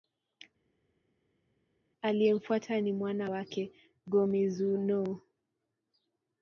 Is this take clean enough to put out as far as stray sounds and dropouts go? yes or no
yes